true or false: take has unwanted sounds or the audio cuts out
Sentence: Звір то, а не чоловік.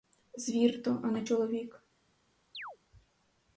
true